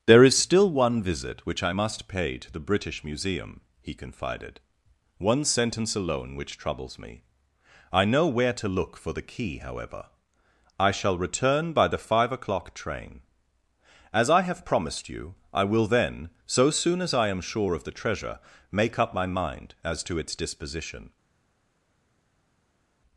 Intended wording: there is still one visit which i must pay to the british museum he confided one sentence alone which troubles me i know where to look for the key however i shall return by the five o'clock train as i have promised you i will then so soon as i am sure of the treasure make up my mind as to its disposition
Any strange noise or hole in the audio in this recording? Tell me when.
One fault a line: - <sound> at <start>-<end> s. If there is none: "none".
none